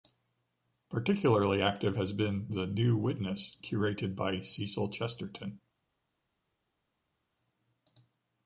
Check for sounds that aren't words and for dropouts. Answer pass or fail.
pass